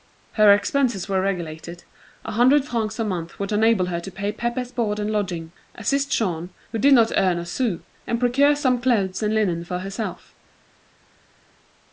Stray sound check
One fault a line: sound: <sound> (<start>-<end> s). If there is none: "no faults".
no faults